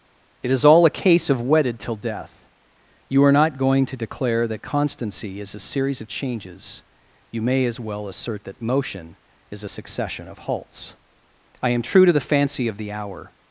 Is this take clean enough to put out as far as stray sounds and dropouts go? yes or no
yes